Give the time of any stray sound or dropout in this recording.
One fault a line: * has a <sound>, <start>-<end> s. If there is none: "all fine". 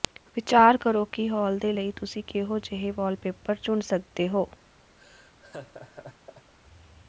* has a laugh, 5.0-6.5 s